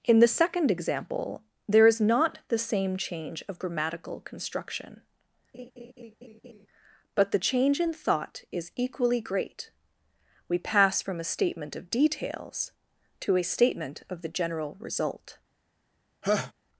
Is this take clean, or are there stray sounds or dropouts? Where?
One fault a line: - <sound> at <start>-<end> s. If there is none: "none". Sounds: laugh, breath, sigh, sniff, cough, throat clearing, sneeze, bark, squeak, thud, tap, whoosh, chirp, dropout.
- laugh at 5.5-6.7 s
- laugh at 16.2-16.5 s